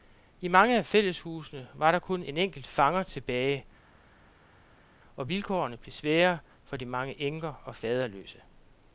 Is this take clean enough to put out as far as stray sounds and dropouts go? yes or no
yes